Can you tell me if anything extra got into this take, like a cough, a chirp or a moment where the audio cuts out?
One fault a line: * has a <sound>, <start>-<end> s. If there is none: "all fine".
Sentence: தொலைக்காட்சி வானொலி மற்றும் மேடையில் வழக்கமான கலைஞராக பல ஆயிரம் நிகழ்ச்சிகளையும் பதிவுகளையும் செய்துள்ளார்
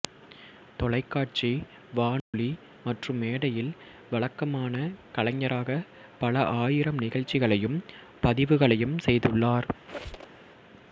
* has a dropout, 2.2-2.3 s
* has a squeak, 9.9-10.4 s